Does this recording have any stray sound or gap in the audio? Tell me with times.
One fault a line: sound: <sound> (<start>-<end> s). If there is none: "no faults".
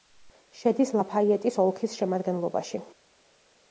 no faults